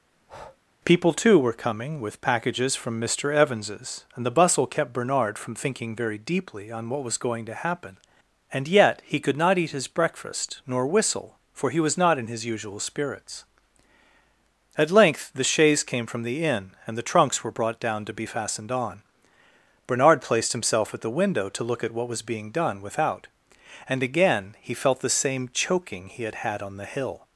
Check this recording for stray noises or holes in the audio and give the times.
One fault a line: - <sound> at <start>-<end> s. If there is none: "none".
- breath at 0.1-0.6 s